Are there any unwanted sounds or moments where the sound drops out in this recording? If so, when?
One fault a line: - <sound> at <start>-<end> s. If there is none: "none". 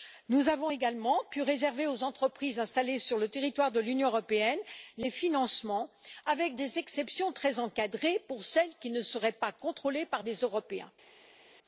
none